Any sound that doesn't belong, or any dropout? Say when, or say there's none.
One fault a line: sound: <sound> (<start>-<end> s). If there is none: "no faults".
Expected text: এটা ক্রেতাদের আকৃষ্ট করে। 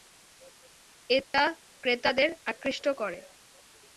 sound: dropout (1.2-1.3 s)